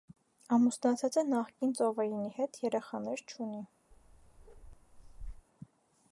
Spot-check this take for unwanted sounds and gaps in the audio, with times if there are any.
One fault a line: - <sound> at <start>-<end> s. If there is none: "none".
- bark at 3.9-5.5 s